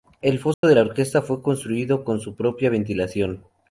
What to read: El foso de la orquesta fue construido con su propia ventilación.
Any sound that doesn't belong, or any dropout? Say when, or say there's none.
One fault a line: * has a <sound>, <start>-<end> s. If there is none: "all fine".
* has a dropout, 0.5-0.6 s